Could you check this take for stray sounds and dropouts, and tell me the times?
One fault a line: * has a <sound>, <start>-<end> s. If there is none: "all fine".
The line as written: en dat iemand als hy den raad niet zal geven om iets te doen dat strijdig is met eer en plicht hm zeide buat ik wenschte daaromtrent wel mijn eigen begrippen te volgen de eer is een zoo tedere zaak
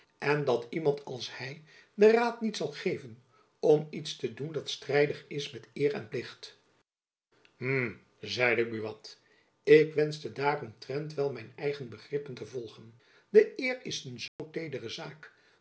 * has a dropout, 14.3-14.4 s